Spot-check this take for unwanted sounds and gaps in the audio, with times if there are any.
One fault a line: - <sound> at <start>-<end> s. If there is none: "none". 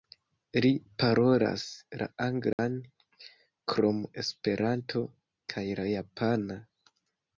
- dropout at 2.5-2.6 s